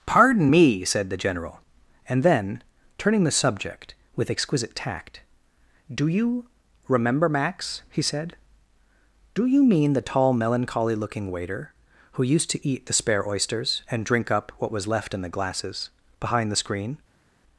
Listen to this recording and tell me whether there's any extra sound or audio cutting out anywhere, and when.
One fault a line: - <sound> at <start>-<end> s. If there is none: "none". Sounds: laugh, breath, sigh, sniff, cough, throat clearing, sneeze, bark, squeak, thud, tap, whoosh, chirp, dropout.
none